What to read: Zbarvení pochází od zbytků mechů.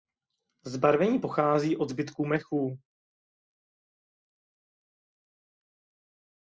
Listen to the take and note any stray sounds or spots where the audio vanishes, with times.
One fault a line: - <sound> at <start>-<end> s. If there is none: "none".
none